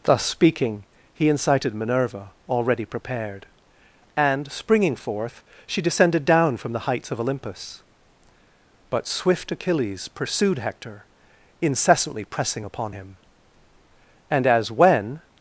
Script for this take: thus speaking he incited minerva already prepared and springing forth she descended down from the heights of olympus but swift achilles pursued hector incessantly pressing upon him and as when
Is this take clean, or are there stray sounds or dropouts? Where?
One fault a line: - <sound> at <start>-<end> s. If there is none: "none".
none